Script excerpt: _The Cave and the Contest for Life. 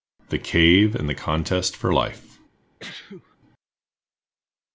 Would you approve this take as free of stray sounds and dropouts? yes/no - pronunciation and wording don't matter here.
no